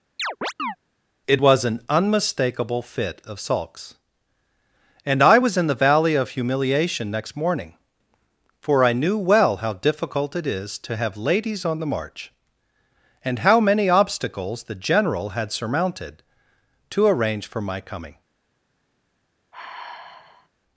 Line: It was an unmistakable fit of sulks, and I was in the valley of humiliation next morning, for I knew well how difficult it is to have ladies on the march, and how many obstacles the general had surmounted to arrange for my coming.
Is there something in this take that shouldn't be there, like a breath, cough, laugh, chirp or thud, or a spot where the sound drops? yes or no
yes